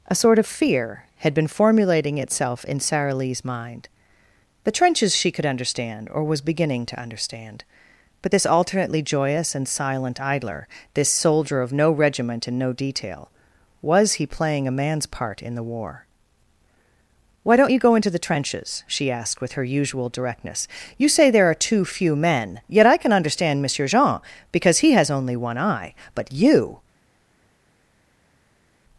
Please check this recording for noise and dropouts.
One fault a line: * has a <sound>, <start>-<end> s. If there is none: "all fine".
all fine